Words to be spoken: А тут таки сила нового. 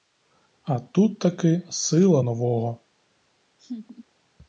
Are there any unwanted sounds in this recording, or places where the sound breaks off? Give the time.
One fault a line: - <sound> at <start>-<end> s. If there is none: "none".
- laugh at 3.6-4.1 s